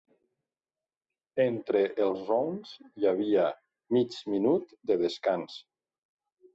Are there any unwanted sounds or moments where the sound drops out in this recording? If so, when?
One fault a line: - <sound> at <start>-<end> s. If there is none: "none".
none